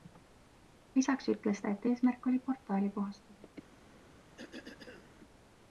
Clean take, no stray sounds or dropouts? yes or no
no